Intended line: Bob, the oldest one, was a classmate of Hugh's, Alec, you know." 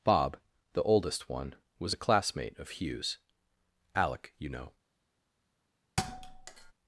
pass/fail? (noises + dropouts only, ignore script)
fail